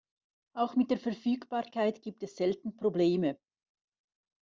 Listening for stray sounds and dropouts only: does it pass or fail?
pass